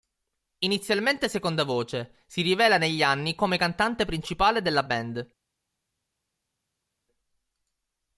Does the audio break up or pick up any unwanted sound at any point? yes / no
no